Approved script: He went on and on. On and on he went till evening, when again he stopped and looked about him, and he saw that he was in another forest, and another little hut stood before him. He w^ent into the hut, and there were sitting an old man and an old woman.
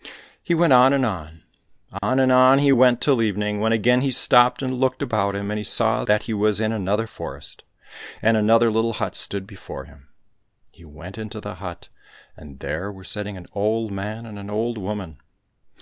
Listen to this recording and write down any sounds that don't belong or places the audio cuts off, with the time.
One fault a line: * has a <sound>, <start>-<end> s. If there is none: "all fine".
* has a dropout, 2.0-2.0 s